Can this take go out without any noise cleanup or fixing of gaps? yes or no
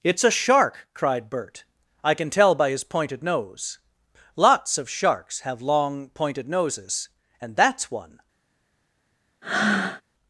no